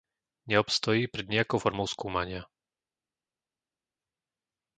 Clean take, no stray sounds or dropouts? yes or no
yes